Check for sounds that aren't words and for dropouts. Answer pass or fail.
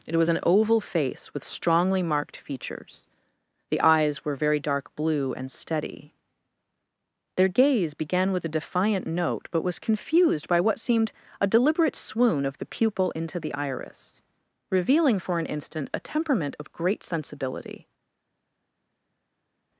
pass